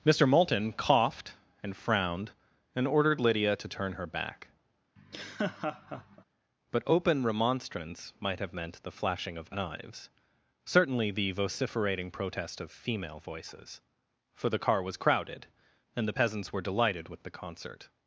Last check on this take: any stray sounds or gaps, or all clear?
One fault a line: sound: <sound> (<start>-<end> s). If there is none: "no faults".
sound: laugh (5.0-6.2 s)